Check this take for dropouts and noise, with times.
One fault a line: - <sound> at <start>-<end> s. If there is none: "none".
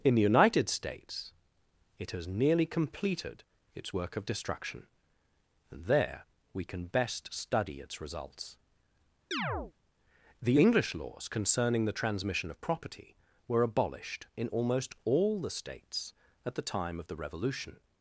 - chirp at 9.3-9.7 s